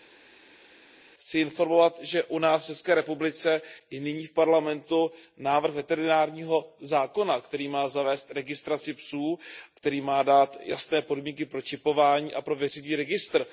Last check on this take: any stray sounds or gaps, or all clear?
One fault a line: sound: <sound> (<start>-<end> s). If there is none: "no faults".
no faults